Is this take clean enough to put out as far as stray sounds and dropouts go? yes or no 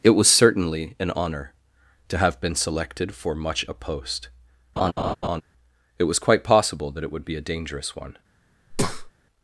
no